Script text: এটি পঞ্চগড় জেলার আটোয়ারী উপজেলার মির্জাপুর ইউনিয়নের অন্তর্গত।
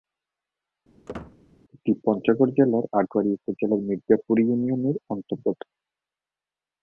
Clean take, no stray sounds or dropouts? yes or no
no